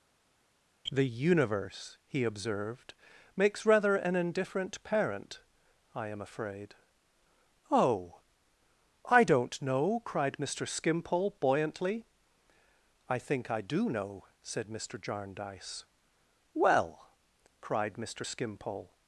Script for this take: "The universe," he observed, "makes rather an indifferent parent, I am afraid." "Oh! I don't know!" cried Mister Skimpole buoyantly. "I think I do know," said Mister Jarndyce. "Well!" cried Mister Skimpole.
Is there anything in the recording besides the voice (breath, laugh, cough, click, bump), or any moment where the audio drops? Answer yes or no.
no